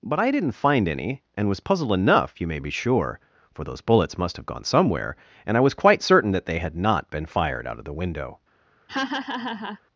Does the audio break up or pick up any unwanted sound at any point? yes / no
yes